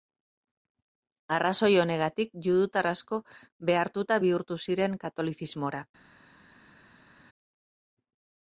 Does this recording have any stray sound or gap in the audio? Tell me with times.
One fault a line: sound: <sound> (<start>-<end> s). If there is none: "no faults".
no faults